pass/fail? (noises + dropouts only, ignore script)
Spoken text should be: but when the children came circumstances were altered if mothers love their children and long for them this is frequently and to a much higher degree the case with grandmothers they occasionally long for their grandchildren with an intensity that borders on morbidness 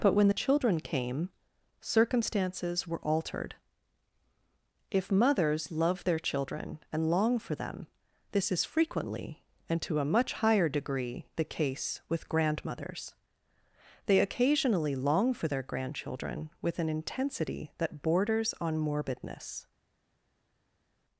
pass